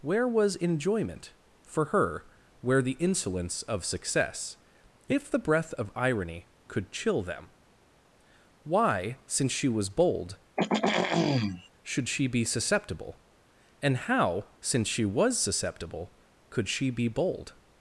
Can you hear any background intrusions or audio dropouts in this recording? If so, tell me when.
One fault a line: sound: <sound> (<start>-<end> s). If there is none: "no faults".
sound: throat clearing (10.6-11.7 s)